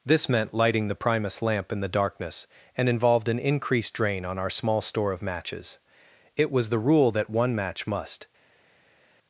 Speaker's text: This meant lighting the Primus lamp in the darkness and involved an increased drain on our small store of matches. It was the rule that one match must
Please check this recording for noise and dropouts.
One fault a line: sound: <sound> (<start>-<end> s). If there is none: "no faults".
no faults